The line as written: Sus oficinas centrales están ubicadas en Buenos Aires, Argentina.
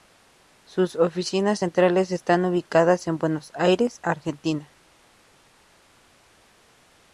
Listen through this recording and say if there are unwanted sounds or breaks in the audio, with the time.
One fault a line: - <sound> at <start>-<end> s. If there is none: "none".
none